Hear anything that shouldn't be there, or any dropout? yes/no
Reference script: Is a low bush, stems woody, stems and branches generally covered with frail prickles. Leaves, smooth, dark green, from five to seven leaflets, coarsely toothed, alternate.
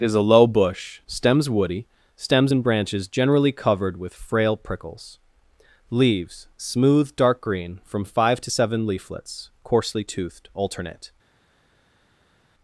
no